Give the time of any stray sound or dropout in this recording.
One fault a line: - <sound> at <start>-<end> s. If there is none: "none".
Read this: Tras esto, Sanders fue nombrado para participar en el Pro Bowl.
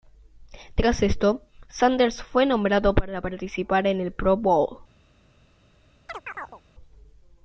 - chirp at 6.1-6.6 s